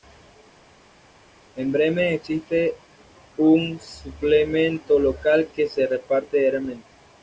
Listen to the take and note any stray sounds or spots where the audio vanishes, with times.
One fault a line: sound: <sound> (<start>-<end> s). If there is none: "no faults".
no faults